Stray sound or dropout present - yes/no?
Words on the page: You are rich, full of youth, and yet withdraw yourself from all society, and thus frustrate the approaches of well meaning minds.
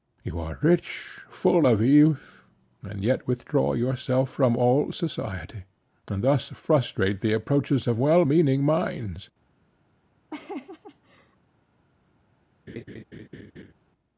yes